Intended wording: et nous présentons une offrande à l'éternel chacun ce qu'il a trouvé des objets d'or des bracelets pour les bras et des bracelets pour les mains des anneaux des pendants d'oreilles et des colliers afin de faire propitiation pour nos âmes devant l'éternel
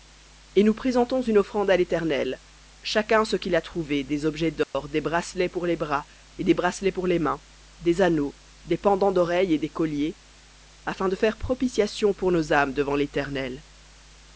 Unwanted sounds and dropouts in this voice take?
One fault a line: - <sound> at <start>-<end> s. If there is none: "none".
- dropout at 4.6-4.7 s